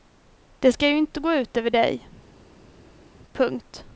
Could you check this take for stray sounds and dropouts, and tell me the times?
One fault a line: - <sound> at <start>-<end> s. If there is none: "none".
none